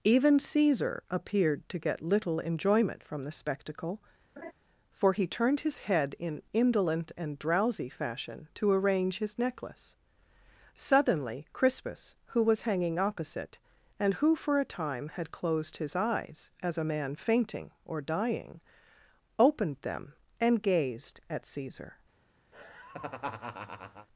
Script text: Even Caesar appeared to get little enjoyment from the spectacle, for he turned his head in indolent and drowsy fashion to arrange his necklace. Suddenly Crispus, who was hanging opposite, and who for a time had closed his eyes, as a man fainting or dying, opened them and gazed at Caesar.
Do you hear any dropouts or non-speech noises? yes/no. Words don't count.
yes